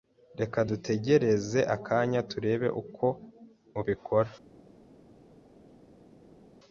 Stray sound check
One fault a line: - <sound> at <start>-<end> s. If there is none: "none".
none